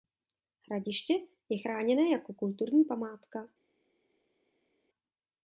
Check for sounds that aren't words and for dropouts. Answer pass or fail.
pass